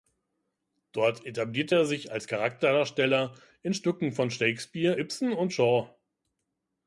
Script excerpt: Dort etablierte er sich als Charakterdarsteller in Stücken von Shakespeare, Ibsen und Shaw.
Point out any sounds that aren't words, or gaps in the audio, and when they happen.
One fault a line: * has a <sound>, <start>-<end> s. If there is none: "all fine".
all fine